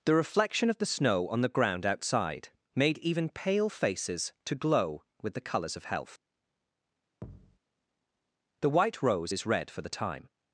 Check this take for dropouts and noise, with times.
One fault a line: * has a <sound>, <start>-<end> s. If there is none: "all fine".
* has a thud, 7.2-7.6 s